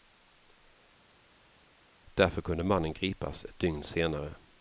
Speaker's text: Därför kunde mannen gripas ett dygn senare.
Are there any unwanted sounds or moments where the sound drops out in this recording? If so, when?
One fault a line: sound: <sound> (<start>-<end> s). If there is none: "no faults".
no faults